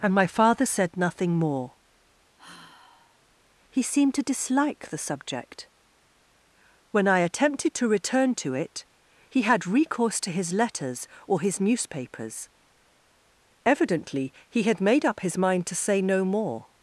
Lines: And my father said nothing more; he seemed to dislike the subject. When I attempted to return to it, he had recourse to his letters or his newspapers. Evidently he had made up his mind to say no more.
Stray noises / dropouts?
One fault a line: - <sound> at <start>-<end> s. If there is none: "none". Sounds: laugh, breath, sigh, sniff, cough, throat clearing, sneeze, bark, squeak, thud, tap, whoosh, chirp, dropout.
- sigh at 2.4-3.2 s